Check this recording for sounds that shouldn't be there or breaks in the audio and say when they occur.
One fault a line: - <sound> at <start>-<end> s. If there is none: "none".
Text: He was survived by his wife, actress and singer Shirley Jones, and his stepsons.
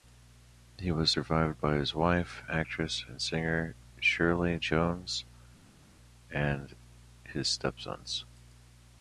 none